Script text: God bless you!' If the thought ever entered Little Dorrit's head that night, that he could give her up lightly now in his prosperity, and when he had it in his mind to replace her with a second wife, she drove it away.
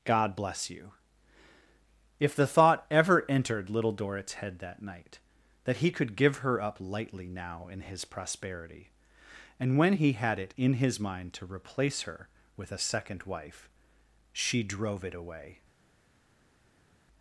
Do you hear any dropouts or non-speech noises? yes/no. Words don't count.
no